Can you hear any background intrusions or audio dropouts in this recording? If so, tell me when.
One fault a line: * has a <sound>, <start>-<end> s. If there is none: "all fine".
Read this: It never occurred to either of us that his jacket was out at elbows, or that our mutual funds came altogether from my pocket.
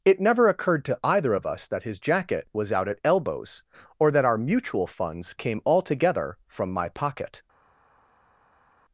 all fine